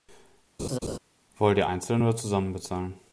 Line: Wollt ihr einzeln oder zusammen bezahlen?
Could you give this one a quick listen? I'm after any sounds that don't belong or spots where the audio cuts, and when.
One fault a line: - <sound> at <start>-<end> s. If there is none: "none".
- laugh at 0.6-1.0 s